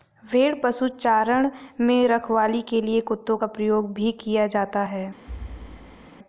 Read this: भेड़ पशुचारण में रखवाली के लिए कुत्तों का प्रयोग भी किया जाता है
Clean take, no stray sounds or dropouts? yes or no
no